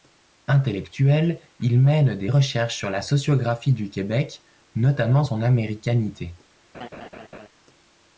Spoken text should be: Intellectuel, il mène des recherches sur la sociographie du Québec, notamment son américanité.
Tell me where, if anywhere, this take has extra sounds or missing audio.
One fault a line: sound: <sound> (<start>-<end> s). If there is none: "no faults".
sound: laugh (6.7-7.5 s)